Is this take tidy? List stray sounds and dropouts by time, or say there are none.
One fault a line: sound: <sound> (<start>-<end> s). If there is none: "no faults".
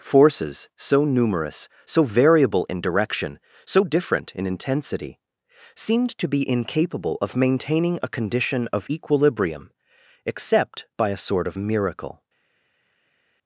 no faults